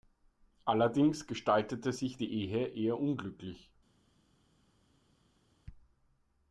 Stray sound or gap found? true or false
false